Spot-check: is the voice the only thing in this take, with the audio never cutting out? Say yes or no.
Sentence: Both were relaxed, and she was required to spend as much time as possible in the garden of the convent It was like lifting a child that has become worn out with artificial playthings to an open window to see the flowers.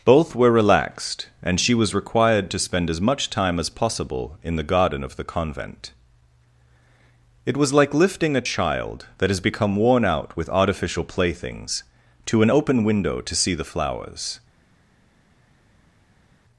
yes